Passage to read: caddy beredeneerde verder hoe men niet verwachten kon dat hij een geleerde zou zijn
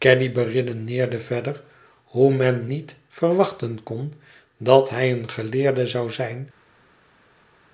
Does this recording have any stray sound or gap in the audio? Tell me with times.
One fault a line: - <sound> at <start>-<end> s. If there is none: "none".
none